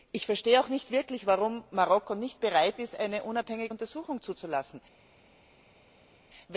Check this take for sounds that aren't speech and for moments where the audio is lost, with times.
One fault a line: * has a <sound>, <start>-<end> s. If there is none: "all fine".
all fine